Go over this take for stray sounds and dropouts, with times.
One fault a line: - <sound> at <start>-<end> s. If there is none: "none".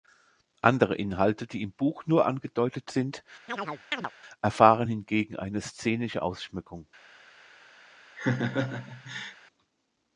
- chirp at 3.5-4.1 s
- laugh at 8.2-9.4 s